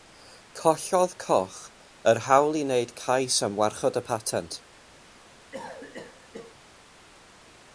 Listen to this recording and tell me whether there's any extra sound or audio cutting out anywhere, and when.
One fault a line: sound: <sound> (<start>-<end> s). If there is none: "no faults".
sound: cough (5.5-6.6 s)